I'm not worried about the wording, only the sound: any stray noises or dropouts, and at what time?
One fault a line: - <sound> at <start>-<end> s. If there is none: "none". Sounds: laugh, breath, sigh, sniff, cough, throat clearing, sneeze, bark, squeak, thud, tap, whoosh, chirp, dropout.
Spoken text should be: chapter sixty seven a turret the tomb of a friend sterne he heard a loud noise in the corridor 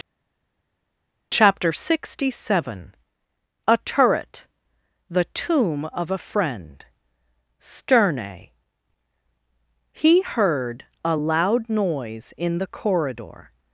none